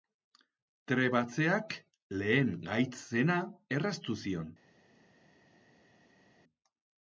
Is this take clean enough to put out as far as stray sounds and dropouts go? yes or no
yes